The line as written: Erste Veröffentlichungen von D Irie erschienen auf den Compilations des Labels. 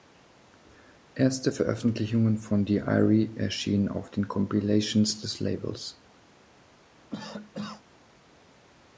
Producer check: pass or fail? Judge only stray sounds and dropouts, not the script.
fail